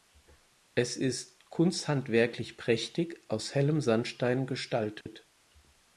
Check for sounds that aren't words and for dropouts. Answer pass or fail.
fail